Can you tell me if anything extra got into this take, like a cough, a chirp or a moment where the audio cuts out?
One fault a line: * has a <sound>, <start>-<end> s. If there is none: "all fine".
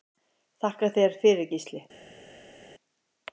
all fine